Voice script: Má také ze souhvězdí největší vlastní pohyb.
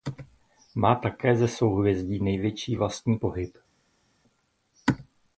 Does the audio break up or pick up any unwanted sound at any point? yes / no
no